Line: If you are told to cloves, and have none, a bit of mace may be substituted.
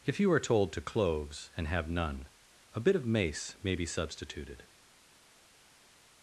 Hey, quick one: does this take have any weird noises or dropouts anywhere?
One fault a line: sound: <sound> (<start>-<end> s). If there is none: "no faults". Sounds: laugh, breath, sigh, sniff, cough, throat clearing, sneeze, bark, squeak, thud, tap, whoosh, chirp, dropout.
no faults